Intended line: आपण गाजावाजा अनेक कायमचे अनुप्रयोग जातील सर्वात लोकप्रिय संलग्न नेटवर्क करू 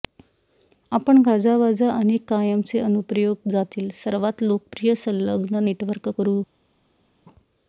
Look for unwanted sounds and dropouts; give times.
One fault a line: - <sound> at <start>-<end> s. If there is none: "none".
none